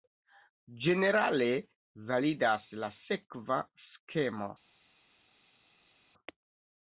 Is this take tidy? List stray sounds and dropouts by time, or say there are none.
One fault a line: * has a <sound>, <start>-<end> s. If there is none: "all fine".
all fine